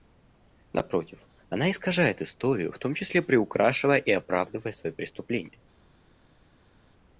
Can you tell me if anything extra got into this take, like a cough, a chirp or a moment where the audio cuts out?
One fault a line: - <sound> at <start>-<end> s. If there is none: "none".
none